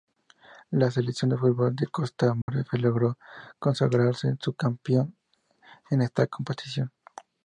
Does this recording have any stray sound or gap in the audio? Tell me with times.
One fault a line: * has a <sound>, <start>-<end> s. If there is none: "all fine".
* has a dropout, 2.4-2.5 s